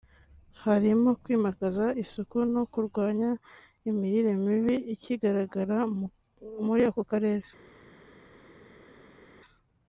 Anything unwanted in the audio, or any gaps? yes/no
no